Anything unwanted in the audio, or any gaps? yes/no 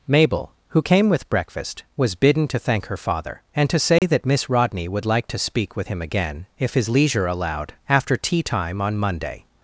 yes